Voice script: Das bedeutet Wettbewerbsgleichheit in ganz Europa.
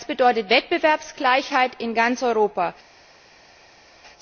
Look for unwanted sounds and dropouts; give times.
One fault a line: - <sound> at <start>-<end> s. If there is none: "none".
none